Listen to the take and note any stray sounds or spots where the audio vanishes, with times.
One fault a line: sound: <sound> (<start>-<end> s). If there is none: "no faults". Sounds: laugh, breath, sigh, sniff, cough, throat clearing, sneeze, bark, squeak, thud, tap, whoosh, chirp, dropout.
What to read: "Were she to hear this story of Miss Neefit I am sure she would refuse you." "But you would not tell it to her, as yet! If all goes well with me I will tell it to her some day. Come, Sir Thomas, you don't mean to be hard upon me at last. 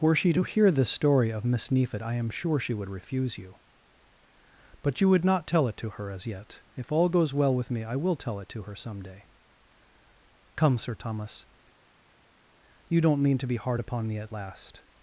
no faults